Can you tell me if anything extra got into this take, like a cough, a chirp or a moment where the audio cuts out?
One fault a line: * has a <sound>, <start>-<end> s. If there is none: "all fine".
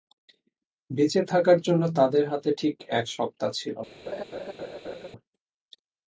* has a laugh, 4.1-5.1 s